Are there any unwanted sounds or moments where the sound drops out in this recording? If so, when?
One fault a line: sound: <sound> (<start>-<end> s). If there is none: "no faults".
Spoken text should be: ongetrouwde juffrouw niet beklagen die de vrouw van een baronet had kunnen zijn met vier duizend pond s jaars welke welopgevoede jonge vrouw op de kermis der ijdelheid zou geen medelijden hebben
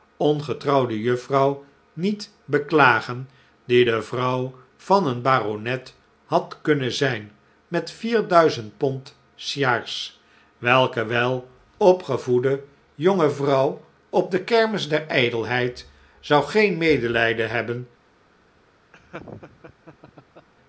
sound: laugh (18.9-20.5 s)